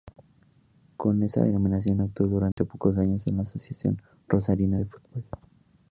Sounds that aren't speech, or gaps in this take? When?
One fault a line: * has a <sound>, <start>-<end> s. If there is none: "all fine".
* has a dropout, 2.5-2.6 s